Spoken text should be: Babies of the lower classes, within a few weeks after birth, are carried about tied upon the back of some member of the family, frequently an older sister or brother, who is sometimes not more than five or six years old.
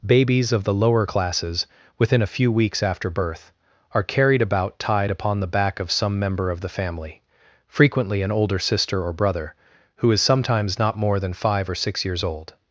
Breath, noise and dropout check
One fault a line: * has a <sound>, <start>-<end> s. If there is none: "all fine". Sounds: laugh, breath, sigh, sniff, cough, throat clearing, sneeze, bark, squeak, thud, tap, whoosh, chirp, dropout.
all fine